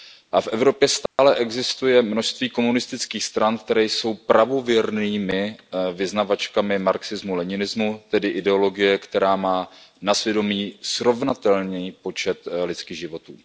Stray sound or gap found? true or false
true